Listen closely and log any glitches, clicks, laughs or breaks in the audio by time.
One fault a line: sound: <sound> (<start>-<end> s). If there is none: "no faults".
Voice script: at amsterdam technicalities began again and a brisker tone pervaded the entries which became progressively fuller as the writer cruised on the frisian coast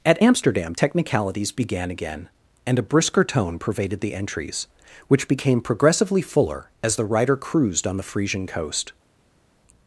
no faults